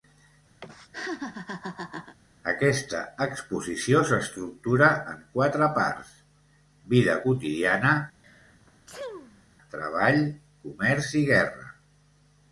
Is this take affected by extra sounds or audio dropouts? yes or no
yes